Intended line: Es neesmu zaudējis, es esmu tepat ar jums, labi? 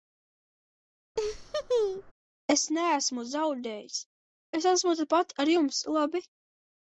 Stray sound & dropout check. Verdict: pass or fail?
fail